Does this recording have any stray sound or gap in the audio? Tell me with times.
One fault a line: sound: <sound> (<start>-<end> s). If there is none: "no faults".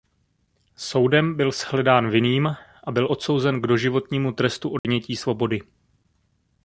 sound: dropout (4.8-4.8 s)